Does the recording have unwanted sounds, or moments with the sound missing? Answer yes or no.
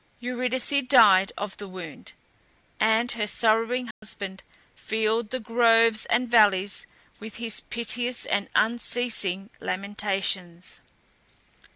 yes